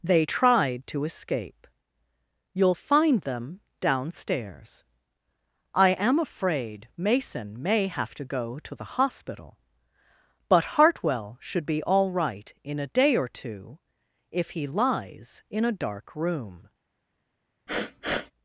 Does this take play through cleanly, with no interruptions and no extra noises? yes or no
no